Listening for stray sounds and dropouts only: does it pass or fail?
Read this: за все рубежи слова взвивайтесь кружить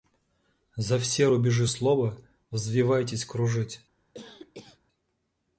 fail